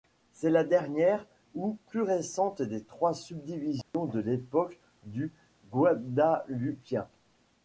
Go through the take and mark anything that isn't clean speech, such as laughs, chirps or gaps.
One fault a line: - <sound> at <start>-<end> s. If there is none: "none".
- dropout at 3.8-3.9 s